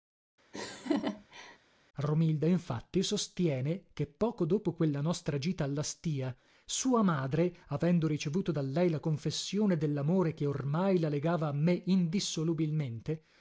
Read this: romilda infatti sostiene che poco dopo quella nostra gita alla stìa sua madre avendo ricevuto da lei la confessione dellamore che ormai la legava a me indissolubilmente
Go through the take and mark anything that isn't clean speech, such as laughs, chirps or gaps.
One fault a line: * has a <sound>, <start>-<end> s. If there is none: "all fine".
* has a laugh, 0.5-1.6 s